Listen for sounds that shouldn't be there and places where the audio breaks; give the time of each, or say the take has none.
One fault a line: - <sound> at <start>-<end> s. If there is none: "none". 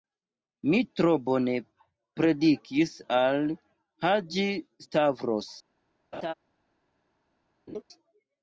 - laugh at 6.1-6.3 s
- laugh at 7.7-7.8 s